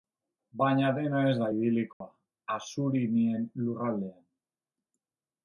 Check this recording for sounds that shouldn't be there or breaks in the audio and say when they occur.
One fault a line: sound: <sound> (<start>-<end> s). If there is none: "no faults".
sound: dropout (1.9-2.0 s)